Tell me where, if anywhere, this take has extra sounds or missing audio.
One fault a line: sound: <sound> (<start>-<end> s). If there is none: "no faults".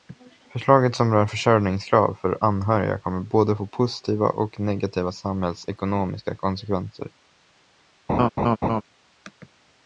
sound: laugh (8.1-8.8 s)